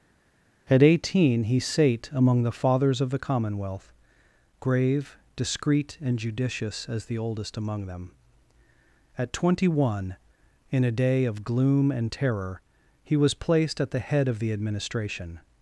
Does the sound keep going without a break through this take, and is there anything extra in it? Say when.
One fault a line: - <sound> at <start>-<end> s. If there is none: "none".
none